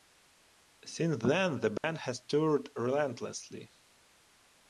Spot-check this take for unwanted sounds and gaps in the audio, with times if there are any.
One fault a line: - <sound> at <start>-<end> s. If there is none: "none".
- dropout at 1.8-1.8 s